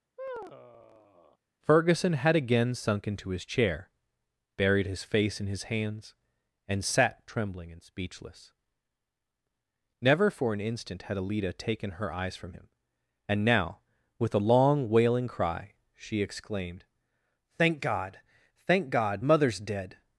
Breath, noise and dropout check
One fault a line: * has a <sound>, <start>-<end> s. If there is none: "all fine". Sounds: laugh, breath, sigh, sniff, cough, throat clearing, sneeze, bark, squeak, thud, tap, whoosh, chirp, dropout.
* has a sigh, 0.2-1.4 s